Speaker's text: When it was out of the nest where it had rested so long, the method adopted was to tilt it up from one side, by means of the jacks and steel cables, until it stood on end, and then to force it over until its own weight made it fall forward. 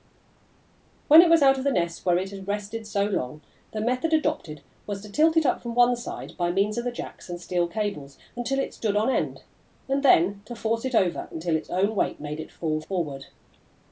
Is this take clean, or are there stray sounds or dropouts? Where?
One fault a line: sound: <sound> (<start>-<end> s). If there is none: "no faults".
no faults